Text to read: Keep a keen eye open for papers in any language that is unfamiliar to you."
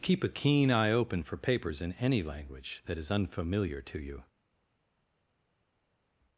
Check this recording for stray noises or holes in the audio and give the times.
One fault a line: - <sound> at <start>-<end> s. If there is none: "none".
none